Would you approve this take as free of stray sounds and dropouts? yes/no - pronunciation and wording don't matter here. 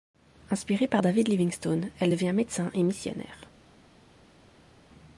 yes